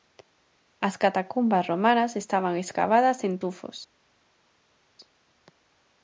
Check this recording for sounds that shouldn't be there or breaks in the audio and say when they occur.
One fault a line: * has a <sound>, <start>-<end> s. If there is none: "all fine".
all fine